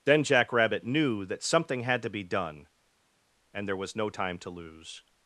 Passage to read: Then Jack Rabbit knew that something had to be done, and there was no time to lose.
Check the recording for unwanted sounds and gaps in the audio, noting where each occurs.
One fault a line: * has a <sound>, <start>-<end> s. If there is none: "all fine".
all fine